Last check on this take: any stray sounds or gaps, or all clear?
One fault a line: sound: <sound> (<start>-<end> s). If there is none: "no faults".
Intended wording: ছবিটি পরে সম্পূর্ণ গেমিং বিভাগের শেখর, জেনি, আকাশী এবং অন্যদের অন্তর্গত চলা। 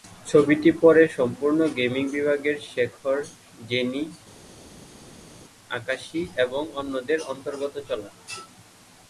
no faults